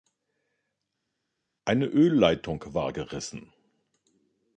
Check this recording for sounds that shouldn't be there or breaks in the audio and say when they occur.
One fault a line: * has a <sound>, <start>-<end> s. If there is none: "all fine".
all fine